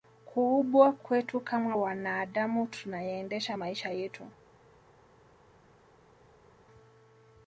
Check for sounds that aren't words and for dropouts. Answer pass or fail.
pass